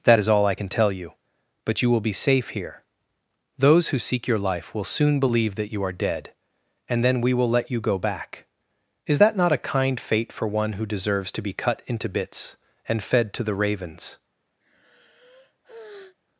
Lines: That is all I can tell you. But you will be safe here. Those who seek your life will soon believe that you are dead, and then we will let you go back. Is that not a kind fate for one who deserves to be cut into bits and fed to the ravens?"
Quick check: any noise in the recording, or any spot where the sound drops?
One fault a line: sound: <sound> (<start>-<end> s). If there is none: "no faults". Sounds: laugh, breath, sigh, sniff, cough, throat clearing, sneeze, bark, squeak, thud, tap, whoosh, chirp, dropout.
sound: sigh (14.6-16.2 s)